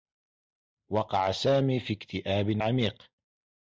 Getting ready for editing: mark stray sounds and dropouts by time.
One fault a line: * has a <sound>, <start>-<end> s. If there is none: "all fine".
all fine